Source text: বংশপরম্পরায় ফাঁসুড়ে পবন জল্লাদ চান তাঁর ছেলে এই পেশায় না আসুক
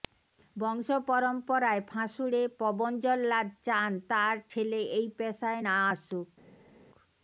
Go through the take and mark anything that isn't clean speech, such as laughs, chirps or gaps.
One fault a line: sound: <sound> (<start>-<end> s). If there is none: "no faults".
no faults